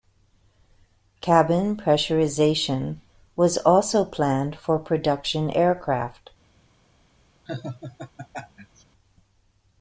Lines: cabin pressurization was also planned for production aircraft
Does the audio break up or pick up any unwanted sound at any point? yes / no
yes